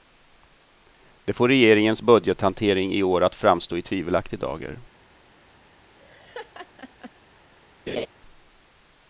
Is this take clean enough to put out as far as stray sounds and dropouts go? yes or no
no